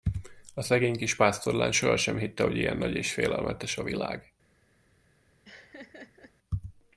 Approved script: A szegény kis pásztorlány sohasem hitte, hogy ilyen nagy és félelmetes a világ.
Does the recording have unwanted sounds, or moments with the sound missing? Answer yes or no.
yes